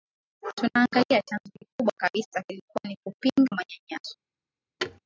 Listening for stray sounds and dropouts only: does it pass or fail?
fail